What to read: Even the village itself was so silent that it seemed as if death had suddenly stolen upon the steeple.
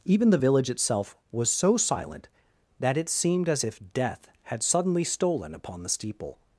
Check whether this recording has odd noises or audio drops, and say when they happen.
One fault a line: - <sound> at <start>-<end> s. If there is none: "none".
none